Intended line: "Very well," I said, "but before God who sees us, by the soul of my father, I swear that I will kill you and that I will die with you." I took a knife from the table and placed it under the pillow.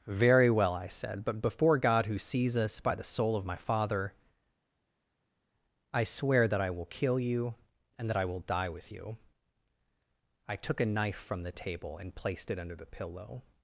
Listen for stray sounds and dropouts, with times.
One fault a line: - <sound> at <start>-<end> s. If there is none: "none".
none